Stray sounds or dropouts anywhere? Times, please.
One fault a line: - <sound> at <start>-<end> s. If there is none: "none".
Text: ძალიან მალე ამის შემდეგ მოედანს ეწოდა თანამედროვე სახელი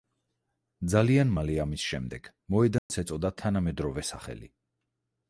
- dropout at 2.8-2.9 s